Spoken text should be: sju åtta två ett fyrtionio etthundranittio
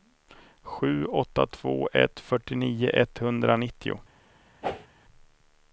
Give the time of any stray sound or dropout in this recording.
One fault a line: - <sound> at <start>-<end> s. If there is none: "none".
- whoosh at 4.6-4.9 s